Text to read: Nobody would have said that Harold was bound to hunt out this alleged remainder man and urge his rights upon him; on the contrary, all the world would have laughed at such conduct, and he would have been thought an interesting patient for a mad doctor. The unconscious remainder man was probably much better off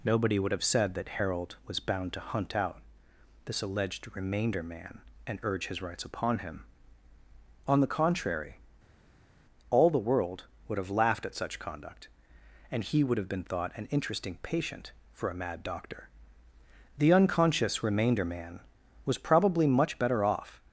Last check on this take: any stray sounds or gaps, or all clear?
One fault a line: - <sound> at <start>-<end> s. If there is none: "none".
none